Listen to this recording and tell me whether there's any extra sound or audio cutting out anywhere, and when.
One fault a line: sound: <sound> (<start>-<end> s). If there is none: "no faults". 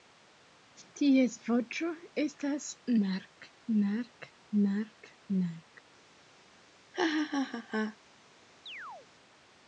sound: laugh (6.9-8.0 s)
sound: chirp (8.7-9.1 s)